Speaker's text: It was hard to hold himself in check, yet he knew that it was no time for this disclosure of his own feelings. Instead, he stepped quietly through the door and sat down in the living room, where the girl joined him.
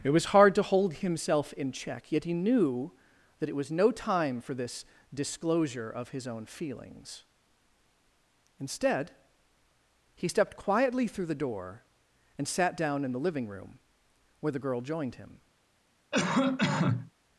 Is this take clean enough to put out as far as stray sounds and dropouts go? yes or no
no